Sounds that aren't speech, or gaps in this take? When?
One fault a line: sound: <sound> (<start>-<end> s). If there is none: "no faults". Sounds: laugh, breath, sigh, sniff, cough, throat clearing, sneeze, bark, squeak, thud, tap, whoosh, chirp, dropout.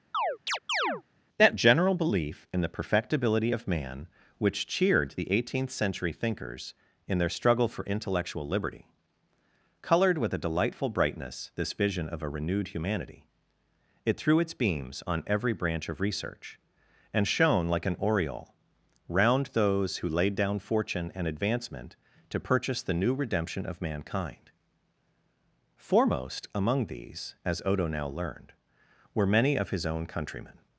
sound: chirp (0.1-1.0 s)